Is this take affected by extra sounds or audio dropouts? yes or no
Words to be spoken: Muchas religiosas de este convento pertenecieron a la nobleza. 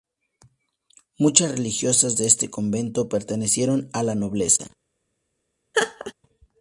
yes